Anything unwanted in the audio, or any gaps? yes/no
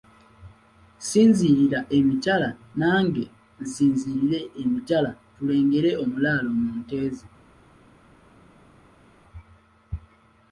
no